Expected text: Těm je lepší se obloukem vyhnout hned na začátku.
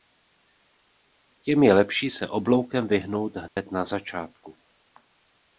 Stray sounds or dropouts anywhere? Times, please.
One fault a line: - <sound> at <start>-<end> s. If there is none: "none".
- dropout at 3.5-3.6 s